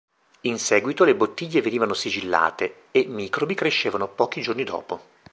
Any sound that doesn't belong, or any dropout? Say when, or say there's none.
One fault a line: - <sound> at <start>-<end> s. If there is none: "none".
none